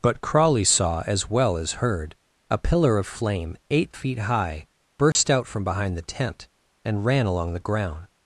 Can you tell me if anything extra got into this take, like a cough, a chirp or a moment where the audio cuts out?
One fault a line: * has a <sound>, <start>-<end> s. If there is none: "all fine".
* has a dropout, 5.1-5.2 s